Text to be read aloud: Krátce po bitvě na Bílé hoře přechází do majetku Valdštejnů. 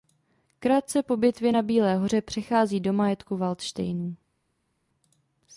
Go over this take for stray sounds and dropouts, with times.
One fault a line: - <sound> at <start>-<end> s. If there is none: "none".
none